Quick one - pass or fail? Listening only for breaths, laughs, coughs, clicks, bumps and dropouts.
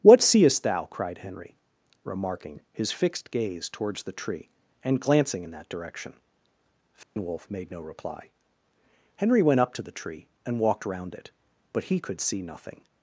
fail